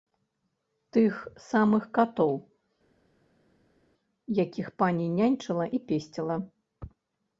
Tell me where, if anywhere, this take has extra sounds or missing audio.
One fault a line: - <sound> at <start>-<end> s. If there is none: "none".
none